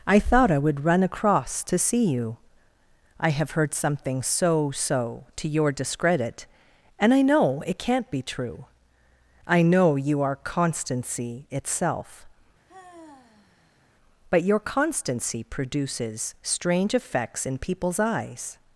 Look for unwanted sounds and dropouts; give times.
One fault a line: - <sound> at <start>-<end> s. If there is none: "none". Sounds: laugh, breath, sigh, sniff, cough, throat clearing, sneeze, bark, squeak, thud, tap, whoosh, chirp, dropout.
- sigh at 12.7-13.9 s